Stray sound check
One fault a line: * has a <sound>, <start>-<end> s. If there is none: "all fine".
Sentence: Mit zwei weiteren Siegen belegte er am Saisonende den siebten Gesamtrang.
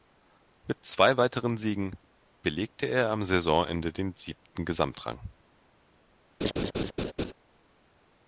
* has a laugh, 6.4-7.3 s